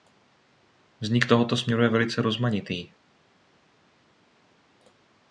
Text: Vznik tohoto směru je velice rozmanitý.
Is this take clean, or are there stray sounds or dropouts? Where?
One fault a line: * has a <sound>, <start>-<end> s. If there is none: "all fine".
all fine